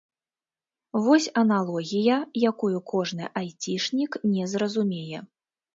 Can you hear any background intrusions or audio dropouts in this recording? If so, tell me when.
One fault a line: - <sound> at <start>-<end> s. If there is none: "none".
none